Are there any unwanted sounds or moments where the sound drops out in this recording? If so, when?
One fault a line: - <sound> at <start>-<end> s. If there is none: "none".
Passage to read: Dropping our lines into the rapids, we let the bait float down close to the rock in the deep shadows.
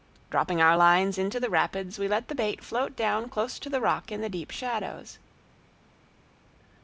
none